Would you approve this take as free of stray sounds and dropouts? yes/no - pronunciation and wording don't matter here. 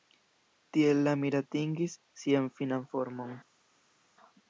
yes